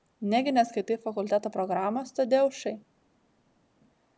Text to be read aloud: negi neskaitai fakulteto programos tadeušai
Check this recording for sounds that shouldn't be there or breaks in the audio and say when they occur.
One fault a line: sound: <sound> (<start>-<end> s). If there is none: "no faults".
no faults